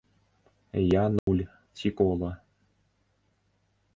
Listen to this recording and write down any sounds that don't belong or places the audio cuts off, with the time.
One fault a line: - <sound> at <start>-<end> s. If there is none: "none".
- dropout at 1.2-1.3 s